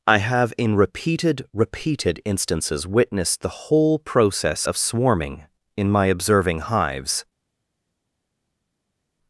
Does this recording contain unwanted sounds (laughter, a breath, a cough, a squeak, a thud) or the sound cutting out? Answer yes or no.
no